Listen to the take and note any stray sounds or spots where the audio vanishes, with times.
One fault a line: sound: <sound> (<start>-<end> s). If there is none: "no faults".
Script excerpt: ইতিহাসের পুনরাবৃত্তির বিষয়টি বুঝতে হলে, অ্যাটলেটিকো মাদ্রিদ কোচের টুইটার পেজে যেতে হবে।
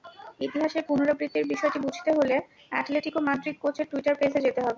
no faults